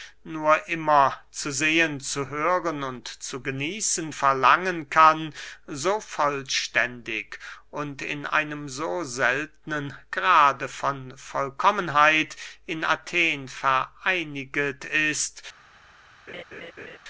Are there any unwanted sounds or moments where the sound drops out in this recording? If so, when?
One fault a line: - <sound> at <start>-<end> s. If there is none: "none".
- laugh at 16.3-17.0 s